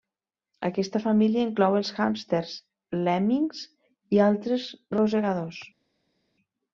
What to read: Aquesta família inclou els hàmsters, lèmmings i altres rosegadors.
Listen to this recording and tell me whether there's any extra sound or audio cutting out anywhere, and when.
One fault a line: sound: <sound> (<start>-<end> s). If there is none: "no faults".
no faults